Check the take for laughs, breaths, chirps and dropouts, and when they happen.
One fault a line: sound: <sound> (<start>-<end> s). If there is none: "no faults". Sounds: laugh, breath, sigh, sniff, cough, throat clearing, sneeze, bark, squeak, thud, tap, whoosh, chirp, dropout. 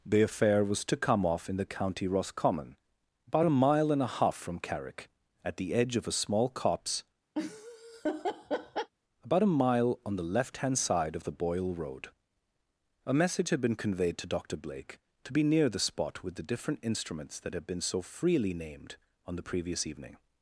sound: laugh (7.4-8.9 s)